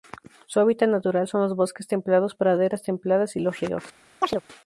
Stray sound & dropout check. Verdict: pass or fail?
fail